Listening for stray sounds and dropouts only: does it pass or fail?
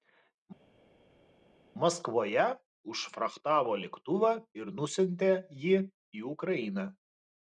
pass